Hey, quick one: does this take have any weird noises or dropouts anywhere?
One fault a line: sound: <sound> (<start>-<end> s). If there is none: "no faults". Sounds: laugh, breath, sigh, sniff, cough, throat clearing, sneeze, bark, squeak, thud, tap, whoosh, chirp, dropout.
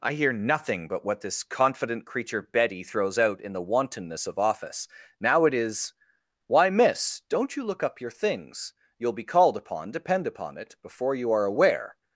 no faults